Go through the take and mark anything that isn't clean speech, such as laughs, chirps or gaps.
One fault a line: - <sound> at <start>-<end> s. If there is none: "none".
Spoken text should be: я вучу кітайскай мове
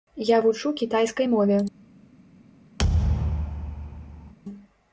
- thud at 2.8-4.3 s